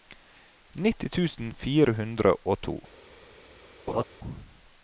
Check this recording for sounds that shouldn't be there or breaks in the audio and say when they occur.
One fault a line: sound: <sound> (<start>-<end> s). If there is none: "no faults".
sound: laugh (3.9-4.0 s)